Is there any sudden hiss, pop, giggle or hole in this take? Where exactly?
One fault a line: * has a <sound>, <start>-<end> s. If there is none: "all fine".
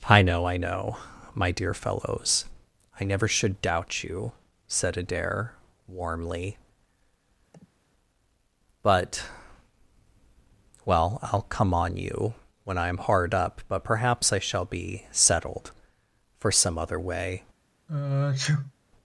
* has a sniff, 7.5-7.8 s
* has a sneeze, 17.9-18.7 s